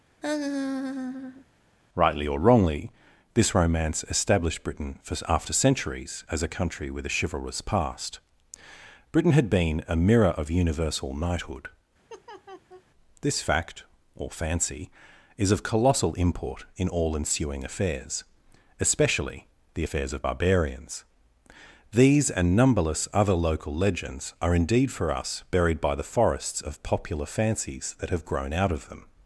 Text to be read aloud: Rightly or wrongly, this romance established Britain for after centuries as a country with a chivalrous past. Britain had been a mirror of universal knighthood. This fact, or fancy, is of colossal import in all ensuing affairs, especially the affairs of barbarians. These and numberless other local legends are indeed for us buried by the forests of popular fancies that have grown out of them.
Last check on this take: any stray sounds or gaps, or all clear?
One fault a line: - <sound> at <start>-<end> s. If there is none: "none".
- laugh at 0.2-1.5 s
- laugh at 12.1-12.8 s